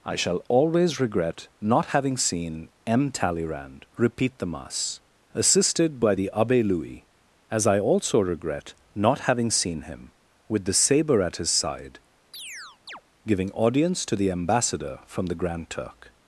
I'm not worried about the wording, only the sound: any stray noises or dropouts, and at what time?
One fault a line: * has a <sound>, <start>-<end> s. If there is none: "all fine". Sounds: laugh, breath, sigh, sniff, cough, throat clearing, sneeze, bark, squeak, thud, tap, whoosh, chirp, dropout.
* has a chirp, 12.3-13.0 s